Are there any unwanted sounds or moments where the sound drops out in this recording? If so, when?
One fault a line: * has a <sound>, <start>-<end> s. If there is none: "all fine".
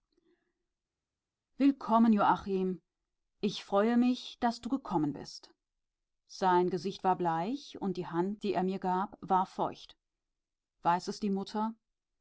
all fine